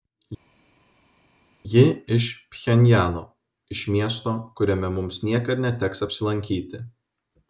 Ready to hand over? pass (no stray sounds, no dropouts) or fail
pass